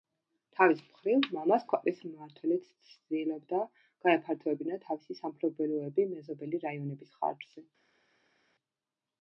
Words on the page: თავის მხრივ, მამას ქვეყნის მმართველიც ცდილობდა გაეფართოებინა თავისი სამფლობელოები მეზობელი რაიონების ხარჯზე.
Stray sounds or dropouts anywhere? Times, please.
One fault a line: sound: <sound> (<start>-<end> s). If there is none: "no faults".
no faults